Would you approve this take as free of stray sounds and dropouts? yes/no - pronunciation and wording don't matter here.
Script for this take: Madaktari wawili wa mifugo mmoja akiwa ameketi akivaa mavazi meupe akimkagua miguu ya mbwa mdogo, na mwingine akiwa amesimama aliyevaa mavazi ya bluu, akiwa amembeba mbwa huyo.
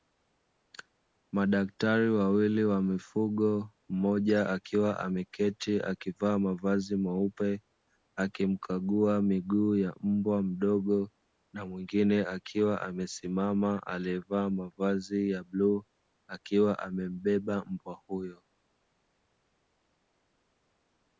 yes